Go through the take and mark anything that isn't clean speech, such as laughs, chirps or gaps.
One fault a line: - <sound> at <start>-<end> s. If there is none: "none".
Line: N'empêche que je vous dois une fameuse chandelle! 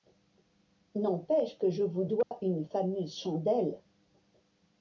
- dropout at 2.2-2.3 s